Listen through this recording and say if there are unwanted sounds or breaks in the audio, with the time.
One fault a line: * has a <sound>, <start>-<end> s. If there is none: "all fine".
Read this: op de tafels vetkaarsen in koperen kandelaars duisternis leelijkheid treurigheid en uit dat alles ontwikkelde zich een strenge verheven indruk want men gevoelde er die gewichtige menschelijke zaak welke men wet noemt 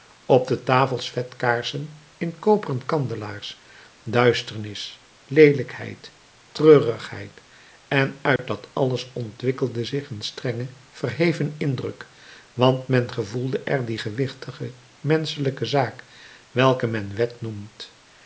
* has a dropout, 8.4-8.4 s